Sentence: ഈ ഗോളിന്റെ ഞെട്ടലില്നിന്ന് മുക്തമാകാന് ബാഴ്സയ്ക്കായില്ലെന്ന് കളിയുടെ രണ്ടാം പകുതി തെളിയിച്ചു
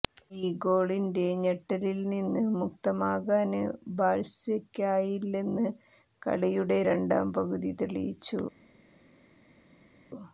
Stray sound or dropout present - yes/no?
no